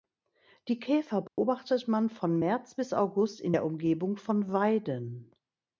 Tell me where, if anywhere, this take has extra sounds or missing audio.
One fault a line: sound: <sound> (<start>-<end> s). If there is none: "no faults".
sound: dropout (1.3-1.4 s)